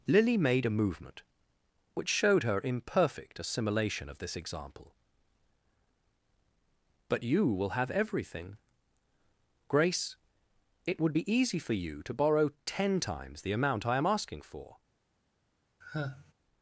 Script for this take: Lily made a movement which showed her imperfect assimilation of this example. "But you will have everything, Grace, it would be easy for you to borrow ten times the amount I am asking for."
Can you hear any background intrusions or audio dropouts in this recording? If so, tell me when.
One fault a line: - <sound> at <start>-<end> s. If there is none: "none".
- sigh at 15.8-16.3 s